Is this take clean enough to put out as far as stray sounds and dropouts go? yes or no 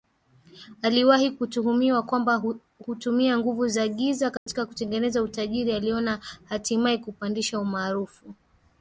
no